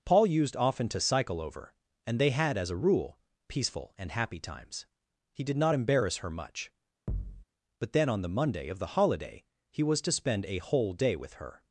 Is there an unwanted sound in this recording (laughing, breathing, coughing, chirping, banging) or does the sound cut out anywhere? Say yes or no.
yes